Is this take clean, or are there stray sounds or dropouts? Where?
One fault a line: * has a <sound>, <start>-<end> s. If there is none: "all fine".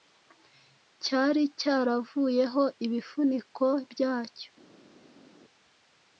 all fine